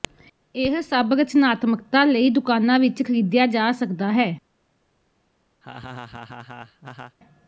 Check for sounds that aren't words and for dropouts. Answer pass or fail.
fail